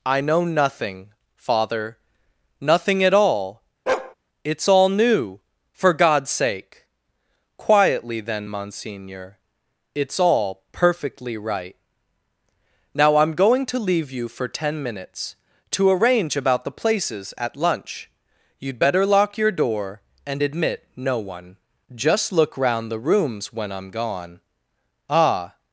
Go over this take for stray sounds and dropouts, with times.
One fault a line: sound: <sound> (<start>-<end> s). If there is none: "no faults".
sound: bark (3.9-4.1 s)